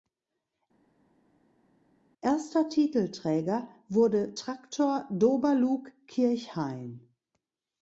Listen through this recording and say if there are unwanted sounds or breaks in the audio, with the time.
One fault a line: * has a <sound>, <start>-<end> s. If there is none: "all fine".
all fine